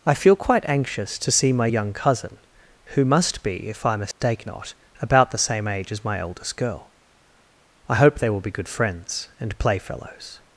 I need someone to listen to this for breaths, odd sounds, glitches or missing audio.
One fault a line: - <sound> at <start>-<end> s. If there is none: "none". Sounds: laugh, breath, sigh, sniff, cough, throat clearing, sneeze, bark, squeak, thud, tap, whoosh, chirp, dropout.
- dropout at 4.1-4.2 s